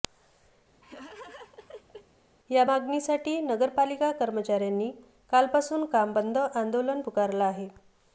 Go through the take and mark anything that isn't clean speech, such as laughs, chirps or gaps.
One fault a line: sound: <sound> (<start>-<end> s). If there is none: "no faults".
sound: laugh (0.8-2.1 s)